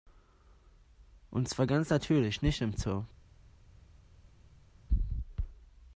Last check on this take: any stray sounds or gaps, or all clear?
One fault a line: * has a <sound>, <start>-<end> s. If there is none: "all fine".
all fine